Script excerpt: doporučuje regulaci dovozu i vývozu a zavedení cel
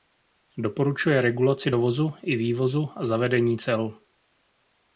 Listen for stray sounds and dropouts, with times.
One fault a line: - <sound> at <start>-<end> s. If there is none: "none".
none